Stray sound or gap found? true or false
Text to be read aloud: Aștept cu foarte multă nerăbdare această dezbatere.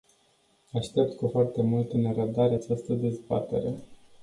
false